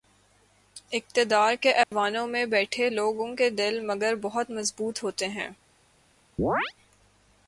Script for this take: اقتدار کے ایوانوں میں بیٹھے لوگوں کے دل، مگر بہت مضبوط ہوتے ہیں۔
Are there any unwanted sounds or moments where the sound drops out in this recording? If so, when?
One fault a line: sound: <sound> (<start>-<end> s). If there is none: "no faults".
sound: dropout (1.8-1.9 s)
sound: chirp (6.4-6.7 s)